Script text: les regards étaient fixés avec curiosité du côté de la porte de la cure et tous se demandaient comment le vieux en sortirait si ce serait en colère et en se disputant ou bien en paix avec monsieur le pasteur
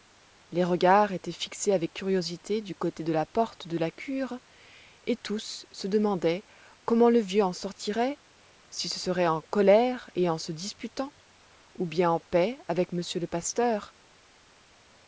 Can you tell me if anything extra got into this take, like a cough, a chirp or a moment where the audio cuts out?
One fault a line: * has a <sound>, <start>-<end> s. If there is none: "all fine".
all fine